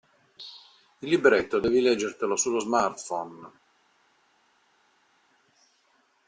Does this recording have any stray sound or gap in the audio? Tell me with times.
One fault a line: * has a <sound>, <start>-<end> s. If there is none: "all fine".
all fine